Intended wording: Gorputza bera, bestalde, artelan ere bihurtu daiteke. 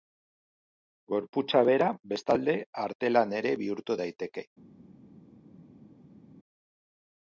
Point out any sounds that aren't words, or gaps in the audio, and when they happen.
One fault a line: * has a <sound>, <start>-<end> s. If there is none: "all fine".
all fine